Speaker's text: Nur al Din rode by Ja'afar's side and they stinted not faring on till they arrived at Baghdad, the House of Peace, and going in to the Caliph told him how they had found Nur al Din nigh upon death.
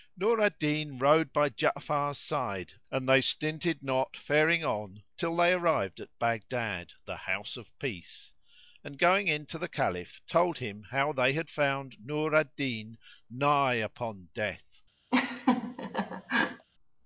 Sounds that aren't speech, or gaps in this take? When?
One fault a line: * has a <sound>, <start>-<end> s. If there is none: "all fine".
* has a laugh, 15.1-16.7 s